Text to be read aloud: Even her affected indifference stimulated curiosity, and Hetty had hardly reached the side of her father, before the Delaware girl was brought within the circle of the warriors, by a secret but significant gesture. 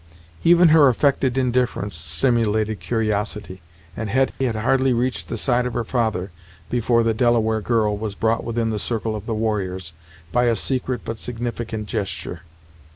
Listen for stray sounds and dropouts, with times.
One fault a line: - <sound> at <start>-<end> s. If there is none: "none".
- dropout at 4.3-4.4 s